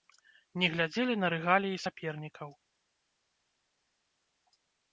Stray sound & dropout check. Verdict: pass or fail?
pass